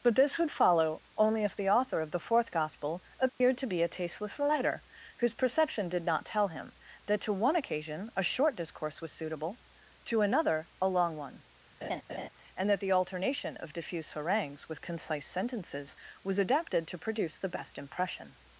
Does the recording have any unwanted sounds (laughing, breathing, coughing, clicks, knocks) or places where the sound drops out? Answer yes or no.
yes